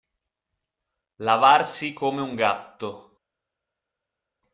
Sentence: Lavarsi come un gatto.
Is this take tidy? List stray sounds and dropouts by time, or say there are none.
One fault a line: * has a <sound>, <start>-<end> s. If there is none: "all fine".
all fine